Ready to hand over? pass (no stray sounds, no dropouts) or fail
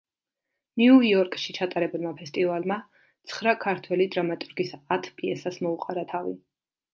pass